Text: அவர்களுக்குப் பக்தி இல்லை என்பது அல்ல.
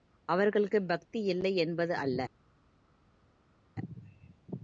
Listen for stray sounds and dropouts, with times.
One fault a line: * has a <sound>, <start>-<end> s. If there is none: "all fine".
all fine